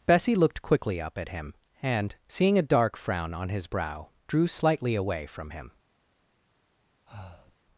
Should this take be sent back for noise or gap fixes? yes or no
yes